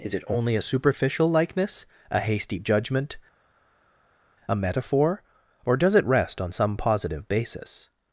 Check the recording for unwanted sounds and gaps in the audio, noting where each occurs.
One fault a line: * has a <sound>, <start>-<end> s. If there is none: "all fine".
all fine